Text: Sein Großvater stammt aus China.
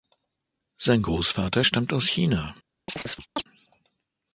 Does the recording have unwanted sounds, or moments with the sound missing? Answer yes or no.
yes